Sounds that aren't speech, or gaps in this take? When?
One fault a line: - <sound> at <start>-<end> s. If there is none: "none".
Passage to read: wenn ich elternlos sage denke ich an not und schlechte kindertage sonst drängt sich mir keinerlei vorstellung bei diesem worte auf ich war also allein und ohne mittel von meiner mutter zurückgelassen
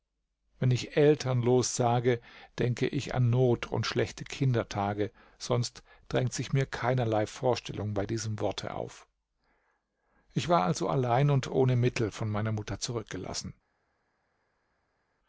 none